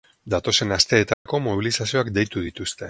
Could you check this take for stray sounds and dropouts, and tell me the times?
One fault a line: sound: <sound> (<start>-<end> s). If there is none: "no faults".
sound: dropout (1.1-1.3 s)